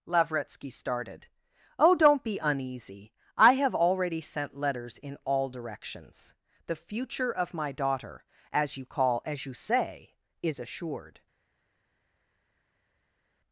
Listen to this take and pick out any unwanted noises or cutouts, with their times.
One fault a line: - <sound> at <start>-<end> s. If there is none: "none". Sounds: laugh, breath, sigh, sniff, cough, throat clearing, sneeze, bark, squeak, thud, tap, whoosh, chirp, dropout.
none